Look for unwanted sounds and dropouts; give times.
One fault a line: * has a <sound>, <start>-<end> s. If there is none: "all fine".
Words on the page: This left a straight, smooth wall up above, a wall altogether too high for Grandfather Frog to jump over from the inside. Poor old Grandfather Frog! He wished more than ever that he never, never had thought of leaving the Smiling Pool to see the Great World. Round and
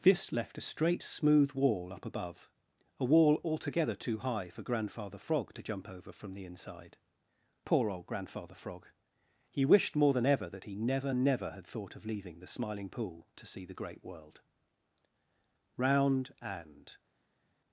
all fine